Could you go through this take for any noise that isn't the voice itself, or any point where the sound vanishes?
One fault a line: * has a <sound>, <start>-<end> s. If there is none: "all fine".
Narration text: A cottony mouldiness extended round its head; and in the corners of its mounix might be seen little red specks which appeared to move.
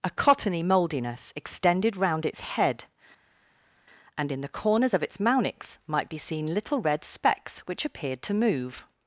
all fine